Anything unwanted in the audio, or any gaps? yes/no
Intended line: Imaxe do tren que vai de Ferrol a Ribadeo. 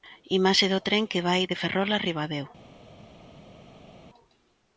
no